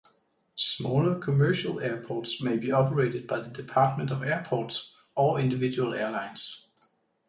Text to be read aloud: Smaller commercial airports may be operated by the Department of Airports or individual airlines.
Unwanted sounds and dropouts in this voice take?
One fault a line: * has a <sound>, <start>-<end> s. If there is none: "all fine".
all fine